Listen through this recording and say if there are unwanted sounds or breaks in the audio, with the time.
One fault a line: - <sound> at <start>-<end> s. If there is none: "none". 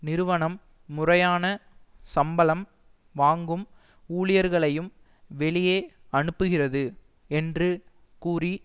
none